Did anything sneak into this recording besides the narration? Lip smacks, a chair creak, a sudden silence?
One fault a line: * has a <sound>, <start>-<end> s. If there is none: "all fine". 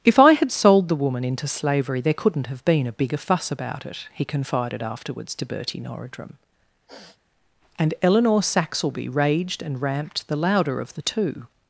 * has a sniff, 6.9-7.2 s